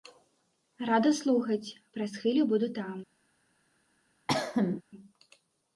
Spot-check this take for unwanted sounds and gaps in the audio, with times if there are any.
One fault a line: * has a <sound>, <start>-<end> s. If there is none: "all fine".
* has a cough, 4.3-4.8 s